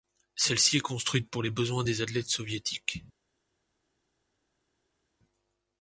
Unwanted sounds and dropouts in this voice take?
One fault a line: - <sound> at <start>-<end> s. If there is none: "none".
none